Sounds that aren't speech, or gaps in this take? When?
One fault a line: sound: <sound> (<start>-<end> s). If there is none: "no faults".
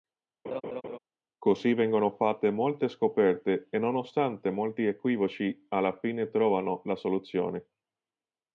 sound: laugh (0.4-1.0 s)